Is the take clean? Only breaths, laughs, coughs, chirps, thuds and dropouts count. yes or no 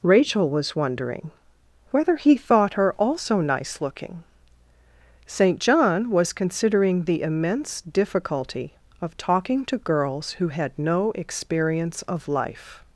yes